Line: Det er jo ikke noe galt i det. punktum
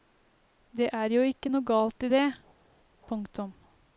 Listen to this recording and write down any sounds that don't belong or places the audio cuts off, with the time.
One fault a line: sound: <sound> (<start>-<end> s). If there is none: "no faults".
no faults